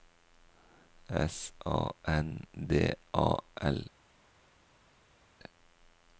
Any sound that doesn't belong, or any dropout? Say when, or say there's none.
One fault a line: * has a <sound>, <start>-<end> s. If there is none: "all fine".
all fine